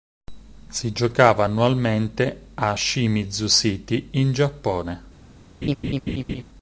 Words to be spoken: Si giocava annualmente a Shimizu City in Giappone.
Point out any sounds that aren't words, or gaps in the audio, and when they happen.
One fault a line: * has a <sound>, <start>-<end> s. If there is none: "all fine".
* has a laugh, 5.6-6.4 s